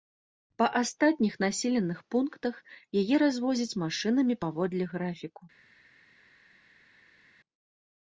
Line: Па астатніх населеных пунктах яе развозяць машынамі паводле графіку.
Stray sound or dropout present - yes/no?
no